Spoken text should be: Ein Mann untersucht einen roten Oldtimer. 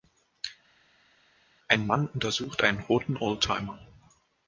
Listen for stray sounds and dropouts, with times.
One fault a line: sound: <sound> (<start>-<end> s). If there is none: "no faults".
no faults